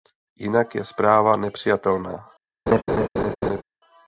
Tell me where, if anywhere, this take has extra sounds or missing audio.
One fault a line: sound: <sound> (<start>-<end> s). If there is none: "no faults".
sound: laugh (2.7-3.6 s)